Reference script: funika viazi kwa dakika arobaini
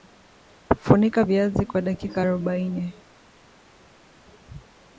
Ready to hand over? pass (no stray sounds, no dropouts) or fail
pass